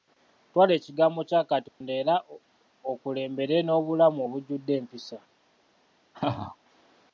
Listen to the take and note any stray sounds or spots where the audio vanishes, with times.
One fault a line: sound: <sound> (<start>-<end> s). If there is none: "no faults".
sound: dropout (1.7-1.8 s)
sound: laugh (6.1-6.6 s)